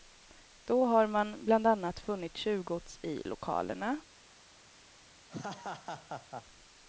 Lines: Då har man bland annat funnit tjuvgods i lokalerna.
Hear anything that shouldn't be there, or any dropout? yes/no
yes